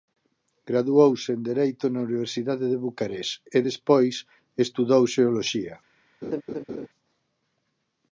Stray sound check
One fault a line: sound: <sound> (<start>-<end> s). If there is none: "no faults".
sound: laugh (6.2-6.9 s)